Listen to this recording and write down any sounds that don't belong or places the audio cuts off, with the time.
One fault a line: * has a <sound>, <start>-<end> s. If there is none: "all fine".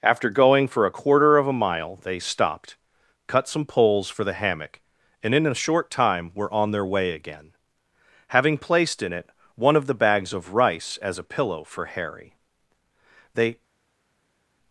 all fine